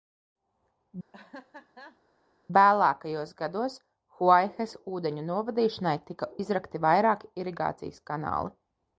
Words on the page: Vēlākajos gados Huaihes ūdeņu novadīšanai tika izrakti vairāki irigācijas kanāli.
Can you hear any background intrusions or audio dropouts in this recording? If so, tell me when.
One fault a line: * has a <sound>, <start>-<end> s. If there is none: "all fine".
* has a laugh, 1.1-2.0 s